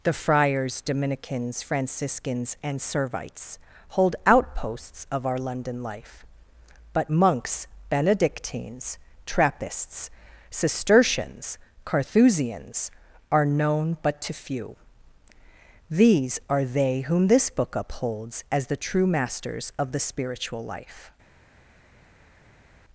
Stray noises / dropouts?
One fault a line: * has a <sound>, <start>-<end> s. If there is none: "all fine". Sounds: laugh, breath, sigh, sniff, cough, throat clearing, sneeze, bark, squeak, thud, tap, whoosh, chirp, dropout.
all fine